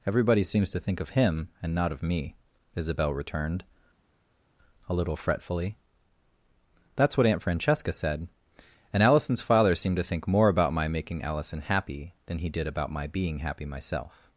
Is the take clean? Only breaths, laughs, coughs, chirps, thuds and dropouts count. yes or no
yes